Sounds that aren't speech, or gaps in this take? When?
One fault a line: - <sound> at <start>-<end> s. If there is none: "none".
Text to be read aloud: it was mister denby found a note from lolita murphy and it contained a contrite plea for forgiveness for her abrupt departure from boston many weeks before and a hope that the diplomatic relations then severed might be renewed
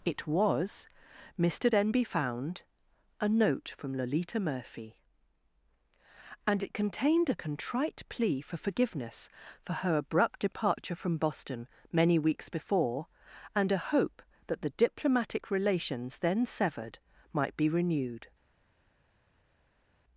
none